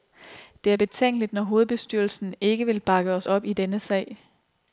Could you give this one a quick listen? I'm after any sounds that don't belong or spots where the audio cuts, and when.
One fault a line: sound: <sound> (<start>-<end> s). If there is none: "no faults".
no faults